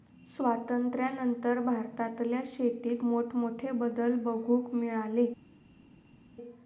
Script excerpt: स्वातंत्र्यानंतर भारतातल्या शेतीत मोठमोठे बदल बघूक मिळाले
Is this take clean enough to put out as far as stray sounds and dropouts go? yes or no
yes